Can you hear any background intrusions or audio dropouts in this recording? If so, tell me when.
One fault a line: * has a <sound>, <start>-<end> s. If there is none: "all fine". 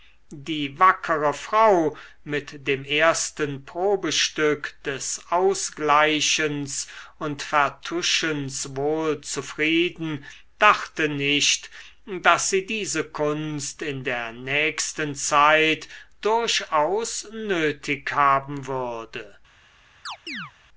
* has a chirp, 20.1-20.5 s